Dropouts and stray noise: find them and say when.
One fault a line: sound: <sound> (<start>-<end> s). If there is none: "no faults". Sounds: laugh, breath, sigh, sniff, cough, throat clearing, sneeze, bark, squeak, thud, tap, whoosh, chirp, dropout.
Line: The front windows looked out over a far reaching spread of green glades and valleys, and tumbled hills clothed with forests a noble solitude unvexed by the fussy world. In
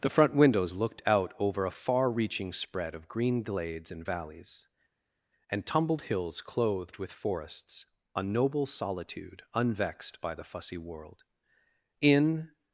no faults